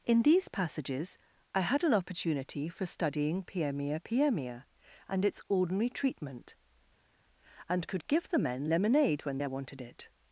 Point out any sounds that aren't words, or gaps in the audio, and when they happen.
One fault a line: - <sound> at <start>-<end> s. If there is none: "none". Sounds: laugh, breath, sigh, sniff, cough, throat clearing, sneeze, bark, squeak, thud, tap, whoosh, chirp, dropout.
none